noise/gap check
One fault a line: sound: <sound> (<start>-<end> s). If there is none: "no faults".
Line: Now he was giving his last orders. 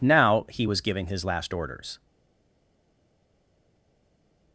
no faults